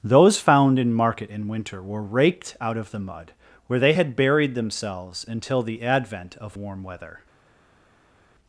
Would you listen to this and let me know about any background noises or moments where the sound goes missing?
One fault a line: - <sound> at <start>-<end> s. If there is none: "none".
none